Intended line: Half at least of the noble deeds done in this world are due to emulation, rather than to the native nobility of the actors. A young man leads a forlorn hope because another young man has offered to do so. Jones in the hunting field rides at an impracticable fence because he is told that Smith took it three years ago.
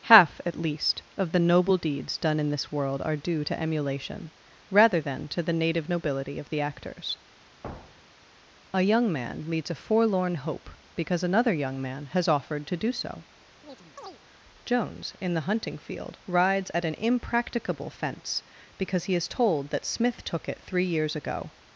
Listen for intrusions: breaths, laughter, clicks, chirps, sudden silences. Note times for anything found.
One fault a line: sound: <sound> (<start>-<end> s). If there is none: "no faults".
sound: thud (7.6-8.3 s)
sound: chirp (13.6-14.2 s)